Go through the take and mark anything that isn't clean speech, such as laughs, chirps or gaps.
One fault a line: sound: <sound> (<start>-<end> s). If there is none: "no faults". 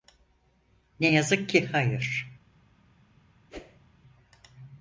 sound: whoosh (3.5-3.8 s)